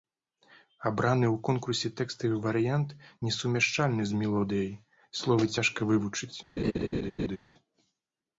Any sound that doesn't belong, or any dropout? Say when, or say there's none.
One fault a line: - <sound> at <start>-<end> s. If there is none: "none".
- laugh at 6.6-7.4 s